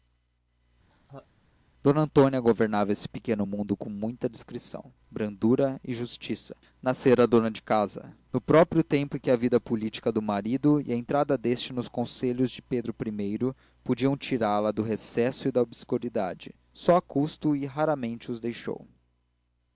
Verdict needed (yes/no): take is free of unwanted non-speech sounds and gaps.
no